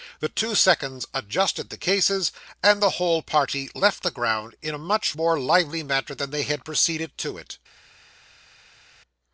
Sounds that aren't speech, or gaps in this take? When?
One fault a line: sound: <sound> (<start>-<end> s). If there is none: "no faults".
no faults